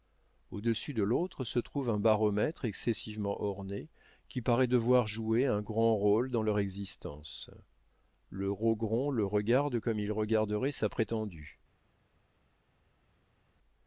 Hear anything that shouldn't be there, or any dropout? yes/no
no